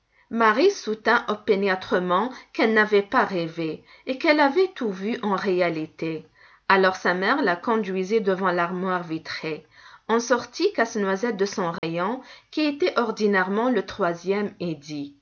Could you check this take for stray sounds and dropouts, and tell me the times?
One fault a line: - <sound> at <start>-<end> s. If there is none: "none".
- dropout at 11.8-11.8 s